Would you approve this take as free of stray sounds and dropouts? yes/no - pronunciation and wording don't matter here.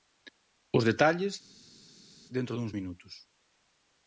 yes